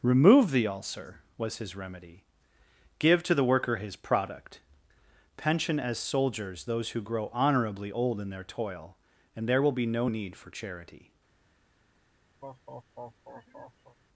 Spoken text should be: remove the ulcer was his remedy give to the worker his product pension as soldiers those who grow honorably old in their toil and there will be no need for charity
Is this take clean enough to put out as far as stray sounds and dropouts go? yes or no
no